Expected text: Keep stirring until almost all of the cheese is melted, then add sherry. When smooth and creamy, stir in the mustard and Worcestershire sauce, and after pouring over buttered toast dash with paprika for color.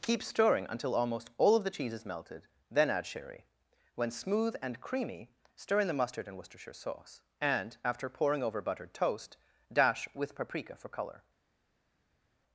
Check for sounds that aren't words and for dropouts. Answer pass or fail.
pass